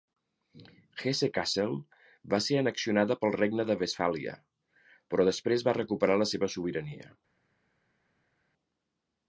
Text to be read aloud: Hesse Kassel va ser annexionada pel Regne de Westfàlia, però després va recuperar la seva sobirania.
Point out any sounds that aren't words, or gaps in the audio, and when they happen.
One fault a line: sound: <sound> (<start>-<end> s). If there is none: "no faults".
no faults